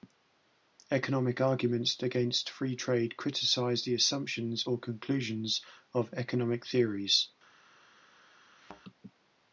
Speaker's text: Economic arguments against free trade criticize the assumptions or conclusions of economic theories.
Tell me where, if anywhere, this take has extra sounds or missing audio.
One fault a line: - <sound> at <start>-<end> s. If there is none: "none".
- thud at 8.6-8.8 s